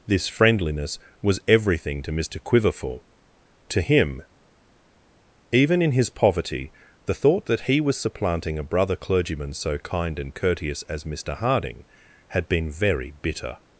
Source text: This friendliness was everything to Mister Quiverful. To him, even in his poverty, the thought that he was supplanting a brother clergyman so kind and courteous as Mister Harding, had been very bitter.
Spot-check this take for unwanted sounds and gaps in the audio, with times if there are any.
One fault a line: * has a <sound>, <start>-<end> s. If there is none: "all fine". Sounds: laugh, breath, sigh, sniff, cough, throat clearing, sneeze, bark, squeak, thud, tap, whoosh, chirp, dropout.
all fine